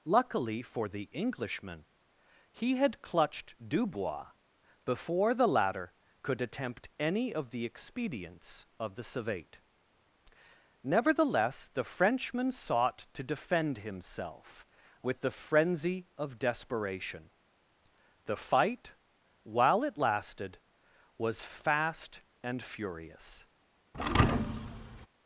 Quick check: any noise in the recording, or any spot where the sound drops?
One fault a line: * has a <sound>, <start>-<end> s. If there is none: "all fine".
* has a thud, 23.9-25.1 s